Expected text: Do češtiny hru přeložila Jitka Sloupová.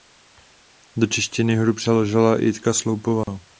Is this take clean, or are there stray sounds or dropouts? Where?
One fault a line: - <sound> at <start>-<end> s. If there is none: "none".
- dropout at 3.2-3.3 s